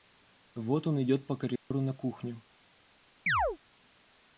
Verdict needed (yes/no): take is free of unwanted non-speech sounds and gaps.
no